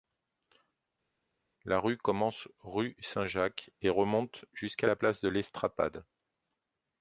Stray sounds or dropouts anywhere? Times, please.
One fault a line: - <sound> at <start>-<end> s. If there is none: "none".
none